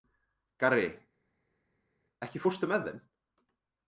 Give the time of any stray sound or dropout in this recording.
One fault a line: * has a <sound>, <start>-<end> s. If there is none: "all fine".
all fine